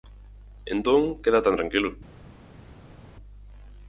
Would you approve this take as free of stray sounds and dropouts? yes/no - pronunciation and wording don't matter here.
yes